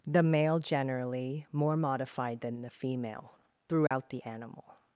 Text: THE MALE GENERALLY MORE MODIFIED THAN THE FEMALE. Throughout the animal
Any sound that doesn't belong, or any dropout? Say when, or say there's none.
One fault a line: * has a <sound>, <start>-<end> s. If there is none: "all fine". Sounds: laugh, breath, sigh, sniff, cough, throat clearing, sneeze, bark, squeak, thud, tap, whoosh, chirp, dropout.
* has a dropout, 3.9-3.9 s